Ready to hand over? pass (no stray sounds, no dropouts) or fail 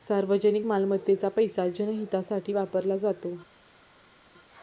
pass